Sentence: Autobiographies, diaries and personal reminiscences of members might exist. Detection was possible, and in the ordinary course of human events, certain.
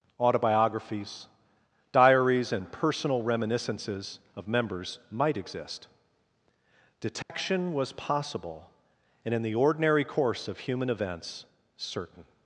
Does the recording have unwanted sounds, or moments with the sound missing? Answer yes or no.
yes